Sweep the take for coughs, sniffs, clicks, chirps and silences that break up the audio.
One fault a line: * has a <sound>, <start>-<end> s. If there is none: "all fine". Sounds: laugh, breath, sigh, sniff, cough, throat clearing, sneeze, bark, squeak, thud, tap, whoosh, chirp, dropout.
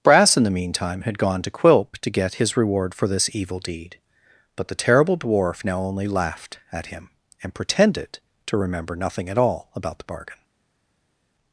all fine